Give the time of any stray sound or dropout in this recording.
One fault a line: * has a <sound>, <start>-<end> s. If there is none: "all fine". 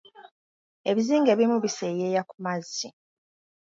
all fine